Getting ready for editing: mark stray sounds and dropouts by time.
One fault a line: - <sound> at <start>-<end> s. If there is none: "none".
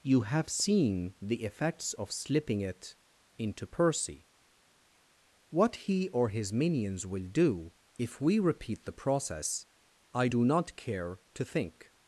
none